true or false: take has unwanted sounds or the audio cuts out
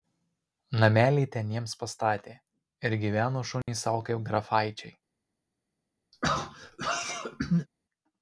true